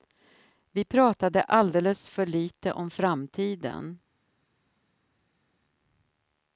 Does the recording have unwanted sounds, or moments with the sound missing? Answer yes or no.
no